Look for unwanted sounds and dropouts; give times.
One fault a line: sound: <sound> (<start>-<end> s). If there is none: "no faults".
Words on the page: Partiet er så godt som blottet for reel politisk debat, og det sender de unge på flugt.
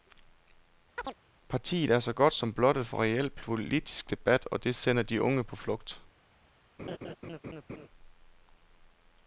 sound: chirp (1.0-1.1 s)
sound: laugh (6.8-7.9 s)